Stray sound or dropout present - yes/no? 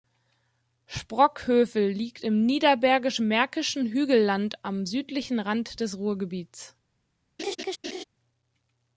yes